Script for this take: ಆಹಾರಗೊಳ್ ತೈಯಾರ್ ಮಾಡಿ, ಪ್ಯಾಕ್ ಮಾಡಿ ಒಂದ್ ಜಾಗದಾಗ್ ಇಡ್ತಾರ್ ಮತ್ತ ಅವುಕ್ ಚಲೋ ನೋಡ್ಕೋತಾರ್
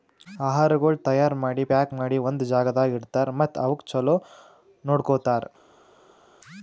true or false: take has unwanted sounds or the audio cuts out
false